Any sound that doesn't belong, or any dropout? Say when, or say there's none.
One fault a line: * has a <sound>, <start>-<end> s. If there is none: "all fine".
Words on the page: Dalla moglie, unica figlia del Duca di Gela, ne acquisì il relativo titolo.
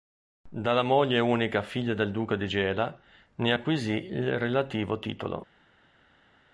all fine